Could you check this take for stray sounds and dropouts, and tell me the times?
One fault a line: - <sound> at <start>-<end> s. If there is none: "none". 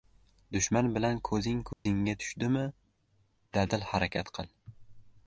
- dropout at 1.7-1.9 s